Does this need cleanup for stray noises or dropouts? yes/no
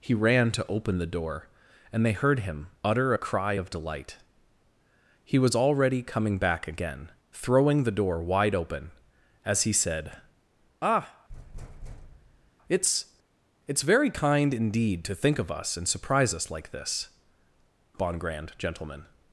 yes